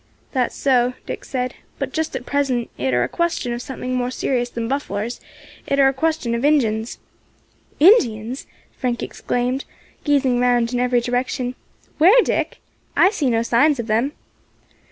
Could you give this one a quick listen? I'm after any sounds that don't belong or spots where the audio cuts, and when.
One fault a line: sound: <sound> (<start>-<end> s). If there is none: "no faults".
no faults